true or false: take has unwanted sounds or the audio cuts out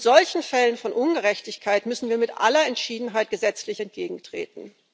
false